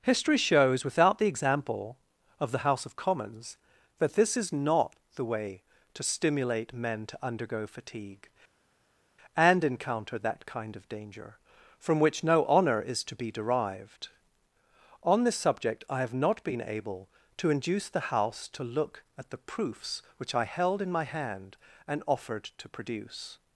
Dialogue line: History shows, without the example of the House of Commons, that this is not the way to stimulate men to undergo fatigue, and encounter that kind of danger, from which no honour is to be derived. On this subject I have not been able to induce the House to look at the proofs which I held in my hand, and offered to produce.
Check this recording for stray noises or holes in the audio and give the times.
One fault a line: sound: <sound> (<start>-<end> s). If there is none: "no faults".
no faults